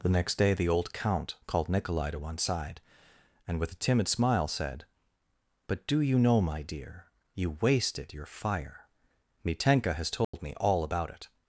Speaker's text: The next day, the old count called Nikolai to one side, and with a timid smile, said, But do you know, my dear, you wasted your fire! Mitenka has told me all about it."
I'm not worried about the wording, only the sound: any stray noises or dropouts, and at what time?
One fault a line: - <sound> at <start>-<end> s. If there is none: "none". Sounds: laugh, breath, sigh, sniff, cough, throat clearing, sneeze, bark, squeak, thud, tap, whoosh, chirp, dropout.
- dropout at 10.2-10.3 s